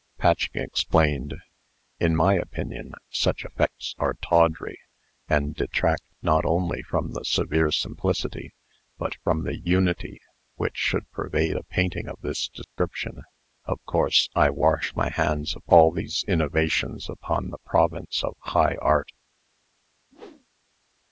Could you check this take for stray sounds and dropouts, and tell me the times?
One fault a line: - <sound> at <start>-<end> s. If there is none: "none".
- dropout at 12.6-12.8 s
- whoosh at 20.1-20.5 s